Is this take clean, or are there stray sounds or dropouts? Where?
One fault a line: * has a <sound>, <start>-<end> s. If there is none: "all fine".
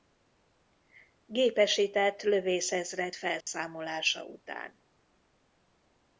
* has a dropout, 3.4-3.5 s